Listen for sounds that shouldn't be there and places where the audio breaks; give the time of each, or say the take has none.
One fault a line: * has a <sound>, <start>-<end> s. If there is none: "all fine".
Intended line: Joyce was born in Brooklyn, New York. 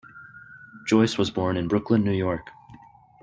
all fine